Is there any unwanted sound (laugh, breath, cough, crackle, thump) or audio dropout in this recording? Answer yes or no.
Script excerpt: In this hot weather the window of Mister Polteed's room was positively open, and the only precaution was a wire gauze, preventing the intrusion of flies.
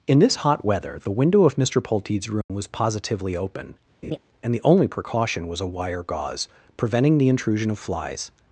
yes